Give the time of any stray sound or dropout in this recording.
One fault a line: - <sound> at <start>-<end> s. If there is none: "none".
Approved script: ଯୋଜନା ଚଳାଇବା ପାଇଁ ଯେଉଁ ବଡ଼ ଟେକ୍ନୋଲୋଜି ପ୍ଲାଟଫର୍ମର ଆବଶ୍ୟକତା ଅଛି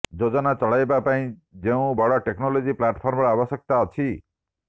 none